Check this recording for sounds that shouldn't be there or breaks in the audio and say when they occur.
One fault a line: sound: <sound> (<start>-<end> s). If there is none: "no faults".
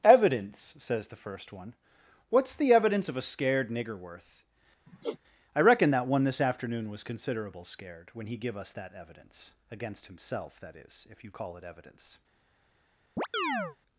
sound: sigh (4.9-5.2 s)
sound: chirp (13.2-13.8 s)